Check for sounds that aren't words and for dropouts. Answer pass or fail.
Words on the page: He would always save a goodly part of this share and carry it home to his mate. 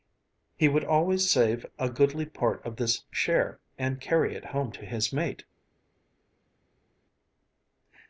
pass